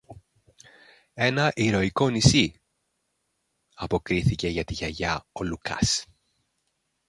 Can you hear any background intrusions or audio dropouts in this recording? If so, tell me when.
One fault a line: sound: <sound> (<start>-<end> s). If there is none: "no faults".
no faults